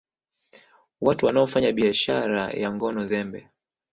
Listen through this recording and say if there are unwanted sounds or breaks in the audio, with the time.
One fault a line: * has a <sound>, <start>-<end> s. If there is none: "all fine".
all fine